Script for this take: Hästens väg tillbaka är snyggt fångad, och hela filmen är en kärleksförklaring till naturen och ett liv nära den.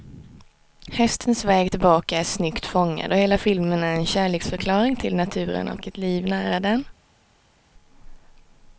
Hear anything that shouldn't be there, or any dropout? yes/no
no